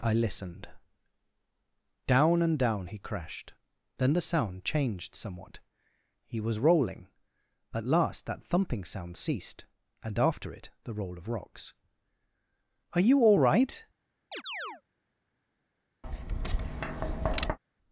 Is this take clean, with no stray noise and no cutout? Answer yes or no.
no